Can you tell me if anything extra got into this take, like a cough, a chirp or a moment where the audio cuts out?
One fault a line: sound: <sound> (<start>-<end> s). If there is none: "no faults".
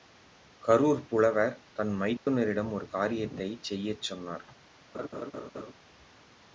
sound: dropout (2.2-2.3 s)
sound: laugh (4.9-5.7 s)